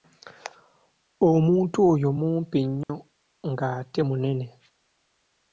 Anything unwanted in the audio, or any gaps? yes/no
yes